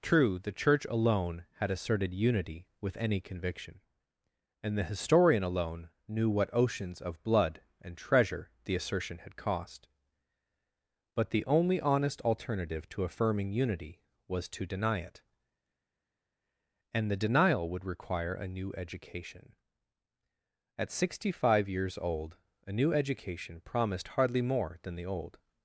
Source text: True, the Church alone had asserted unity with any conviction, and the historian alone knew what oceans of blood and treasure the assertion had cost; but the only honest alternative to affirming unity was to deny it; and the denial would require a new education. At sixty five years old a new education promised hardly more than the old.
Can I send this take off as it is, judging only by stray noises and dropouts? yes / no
yes